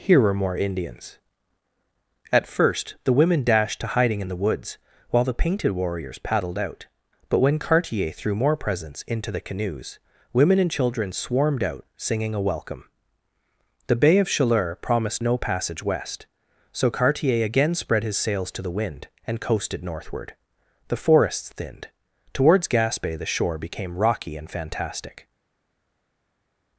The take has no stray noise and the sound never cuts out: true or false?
true